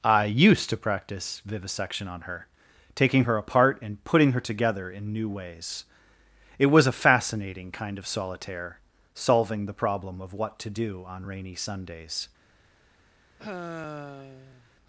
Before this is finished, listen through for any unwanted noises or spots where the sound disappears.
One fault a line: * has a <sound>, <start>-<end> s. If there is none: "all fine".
* has a sigh, 13.4-14.7 s